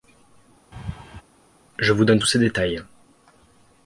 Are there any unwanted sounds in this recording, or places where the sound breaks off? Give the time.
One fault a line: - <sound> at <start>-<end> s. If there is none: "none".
- laugh at 0.7-1.2 s